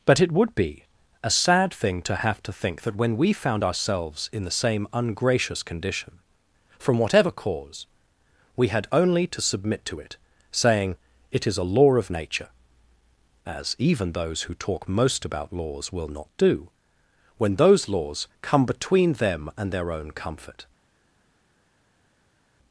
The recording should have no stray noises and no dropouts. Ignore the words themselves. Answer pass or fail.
pass